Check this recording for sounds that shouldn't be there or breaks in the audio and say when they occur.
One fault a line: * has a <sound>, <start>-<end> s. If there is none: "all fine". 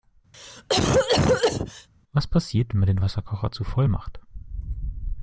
* has a cough, 0.3-1.9 s